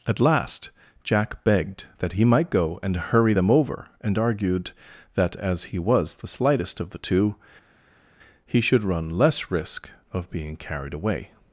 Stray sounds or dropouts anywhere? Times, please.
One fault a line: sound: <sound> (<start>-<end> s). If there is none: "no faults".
no faults